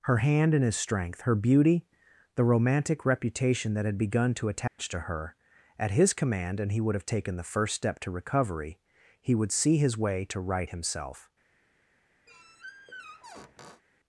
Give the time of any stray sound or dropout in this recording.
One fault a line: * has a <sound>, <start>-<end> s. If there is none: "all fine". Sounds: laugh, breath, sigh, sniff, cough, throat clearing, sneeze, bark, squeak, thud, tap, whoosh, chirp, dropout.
* has a dropout, 4.7-4.8 s
* has a squeak, 12.3-13.8 s